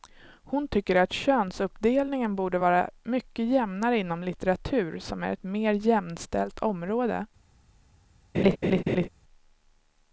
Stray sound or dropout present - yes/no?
yes